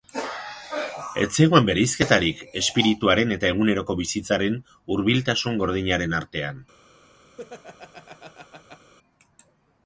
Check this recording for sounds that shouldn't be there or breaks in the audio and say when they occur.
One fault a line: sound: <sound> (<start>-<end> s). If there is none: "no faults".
sound: laugh (7.4-8.9 s)